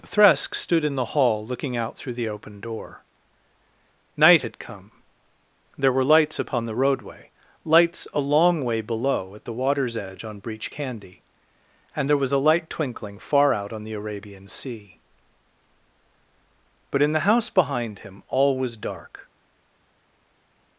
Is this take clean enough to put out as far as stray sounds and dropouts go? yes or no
yes